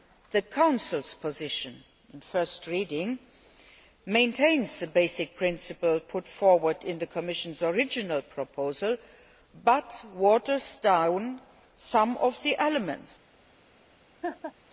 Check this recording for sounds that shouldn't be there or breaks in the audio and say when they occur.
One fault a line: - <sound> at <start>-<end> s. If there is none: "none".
- laugh at 14.2-14.5 s